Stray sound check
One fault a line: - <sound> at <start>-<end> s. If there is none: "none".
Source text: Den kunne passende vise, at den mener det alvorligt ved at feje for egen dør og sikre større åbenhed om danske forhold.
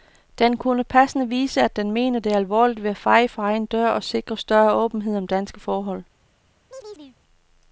- chirp at 6.7-7.2 s